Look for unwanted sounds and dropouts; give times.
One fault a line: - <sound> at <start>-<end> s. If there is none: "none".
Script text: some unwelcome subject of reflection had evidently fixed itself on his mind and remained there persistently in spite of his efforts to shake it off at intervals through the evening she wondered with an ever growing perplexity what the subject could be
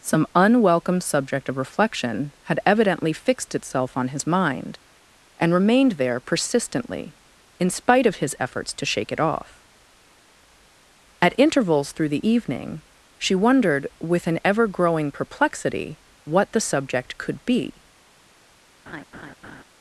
- laugh at 18.9-19.6 s